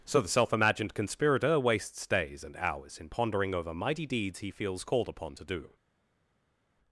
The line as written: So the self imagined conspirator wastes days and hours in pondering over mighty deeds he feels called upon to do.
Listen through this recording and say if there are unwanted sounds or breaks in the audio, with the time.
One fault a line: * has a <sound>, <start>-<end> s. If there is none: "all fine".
all fine